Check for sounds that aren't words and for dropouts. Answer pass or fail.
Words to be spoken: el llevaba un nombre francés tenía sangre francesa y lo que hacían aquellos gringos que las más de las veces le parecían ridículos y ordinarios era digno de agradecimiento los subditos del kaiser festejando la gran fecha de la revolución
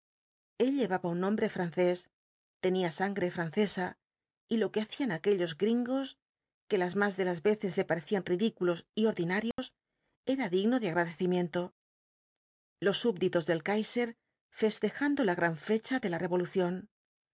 fail